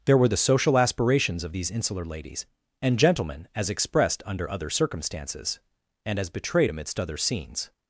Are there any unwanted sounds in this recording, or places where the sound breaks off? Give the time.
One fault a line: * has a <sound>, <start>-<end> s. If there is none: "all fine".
all fine